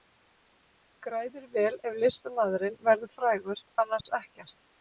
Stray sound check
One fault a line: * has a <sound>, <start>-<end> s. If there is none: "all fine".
* has a dropout, 4.0-4.1 s